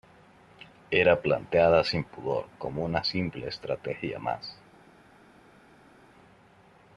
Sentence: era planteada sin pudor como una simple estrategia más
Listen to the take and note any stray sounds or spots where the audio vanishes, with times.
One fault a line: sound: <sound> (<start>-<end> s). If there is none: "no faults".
no faults